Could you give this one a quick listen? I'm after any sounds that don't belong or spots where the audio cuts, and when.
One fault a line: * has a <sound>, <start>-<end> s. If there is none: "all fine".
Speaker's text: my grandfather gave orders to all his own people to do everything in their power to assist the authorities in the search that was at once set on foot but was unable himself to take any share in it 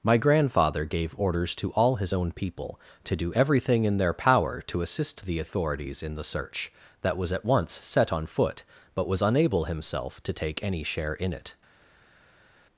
all fine